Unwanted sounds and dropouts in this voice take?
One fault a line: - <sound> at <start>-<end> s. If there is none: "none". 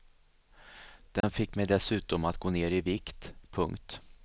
- dropout at 1.2-1.2 s